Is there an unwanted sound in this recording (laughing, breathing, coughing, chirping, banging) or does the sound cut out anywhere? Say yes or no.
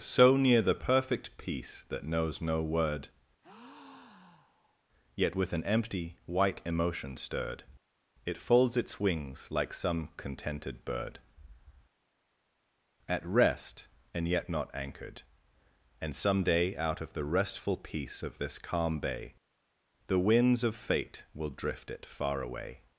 yes